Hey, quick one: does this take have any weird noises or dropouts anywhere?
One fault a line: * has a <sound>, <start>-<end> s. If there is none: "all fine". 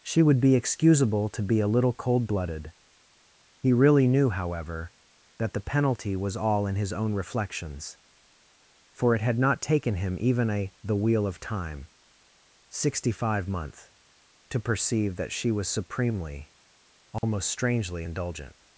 * has a dropout, 17.2-17.2 s